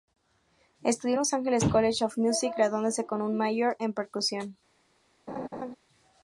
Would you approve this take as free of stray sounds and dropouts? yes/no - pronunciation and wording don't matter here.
no